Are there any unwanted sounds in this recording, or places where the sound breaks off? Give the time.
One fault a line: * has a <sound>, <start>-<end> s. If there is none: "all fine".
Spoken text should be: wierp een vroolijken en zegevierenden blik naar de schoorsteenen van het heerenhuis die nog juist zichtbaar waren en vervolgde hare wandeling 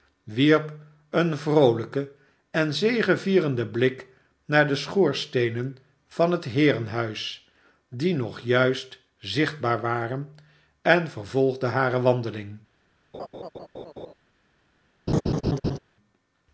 * has a laugh, 13.1-14.1 s
* has a laugh, 15.1-15.8 s